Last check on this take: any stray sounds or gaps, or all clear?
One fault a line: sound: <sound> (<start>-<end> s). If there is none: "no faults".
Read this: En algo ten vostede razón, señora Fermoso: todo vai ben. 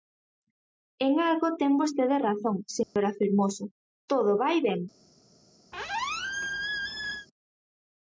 sound: dropout (2.8-3.0 s)
sound: squeak (5.7-7.3 s)